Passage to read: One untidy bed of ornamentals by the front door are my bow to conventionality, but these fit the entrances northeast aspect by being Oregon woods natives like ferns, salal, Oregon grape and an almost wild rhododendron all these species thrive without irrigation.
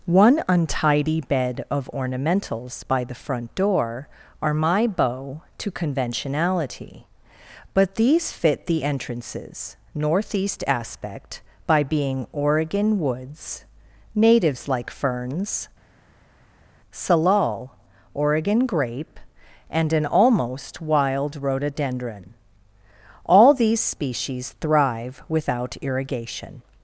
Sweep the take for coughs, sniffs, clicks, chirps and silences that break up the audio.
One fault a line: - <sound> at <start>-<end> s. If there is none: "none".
none